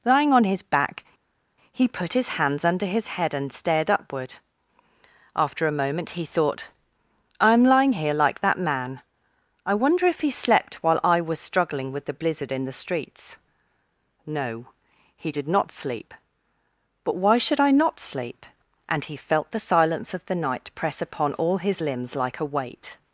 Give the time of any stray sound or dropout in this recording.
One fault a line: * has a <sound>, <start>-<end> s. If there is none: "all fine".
all fine